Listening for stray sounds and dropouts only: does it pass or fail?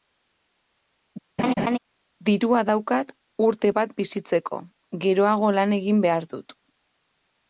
fail